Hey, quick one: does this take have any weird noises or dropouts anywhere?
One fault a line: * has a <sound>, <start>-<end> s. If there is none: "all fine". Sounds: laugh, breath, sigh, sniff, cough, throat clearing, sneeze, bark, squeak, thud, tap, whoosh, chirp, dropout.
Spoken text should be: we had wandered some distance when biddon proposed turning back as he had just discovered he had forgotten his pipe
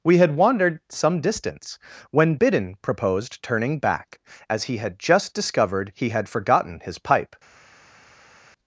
all fine